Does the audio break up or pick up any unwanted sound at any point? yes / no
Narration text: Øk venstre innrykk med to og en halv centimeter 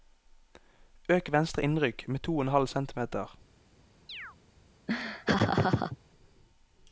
yes